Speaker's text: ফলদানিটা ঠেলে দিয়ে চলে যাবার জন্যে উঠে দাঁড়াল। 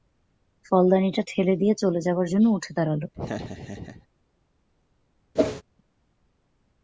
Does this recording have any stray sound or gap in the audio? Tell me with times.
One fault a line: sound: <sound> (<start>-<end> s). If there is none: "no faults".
sound: laugh (3.1-4.1 s)
sound: whoosh (5.4-5.6 s)